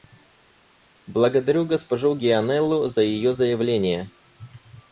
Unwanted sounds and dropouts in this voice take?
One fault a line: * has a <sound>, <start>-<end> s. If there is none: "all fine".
all fine